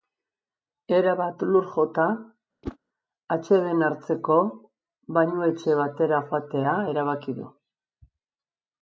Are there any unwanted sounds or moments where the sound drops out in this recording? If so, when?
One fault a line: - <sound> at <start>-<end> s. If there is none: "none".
- whoosh at 2.6-2.8 s